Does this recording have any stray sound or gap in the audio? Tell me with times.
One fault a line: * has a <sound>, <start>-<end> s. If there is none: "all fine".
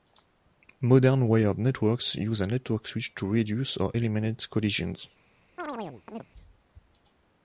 * has a chirp, 5.6-6.3 s